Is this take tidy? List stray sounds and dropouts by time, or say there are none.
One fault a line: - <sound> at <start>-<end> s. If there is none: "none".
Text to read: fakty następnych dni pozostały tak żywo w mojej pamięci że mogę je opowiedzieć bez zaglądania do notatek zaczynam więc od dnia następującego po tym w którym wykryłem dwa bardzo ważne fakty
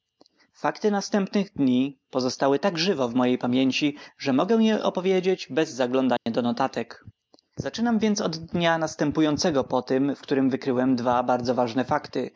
- dropout at 6.2-6.3 s